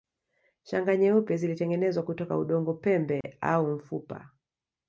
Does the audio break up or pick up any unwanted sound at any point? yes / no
yes